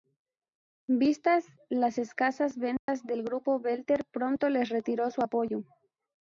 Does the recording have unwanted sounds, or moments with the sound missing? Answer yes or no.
yes